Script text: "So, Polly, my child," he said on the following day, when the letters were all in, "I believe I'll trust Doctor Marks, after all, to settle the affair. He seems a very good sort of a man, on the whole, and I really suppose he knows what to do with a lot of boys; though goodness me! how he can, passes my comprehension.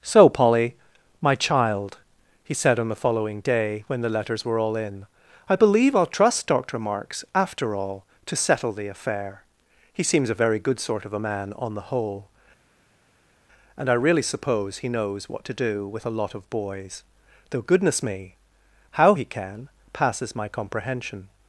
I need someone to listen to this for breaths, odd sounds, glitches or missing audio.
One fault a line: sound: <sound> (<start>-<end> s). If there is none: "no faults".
no faults